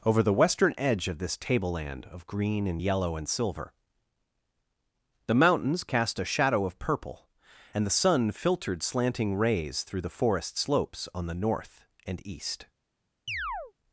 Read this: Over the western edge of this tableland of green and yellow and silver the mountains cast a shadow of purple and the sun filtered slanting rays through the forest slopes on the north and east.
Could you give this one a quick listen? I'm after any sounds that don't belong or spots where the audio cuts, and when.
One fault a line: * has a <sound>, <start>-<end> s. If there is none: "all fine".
* has a chirp, 13.3-13.7 s